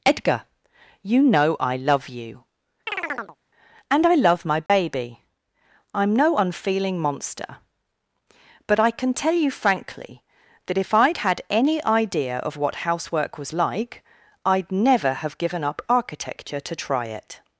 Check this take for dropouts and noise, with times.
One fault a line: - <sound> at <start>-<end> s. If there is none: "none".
- chirp at 2.9-3.4 s
- dropout at 4.7-4.7 s